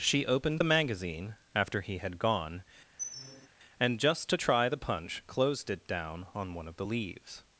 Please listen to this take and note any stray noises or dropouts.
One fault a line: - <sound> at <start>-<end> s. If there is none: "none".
- squeak at 3.0-3.5 s